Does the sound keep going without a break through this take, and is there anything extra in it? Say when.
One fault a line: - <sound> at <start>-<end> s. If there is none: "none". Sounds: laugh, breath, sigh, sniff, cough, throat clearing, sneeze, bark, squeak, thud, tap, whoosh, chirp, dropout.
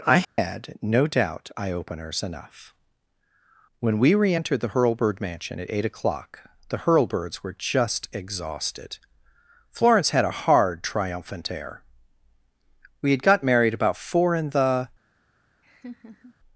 - dropout at 0.2-0.4 s
- laugh at 15.6-16.3 s